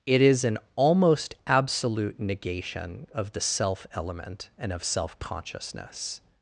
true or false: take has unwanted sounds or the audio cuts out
false